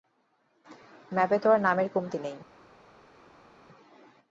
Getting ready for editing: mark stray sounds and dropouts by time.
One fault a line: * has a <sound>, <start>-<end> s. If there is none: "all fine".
all fine